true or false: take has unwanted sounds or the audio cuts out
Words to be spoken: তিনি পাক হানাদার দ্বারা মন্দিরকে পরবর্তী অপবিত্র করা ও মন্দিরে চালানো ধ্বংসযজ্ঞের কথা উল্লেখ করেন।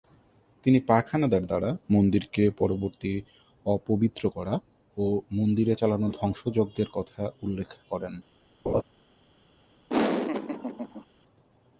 true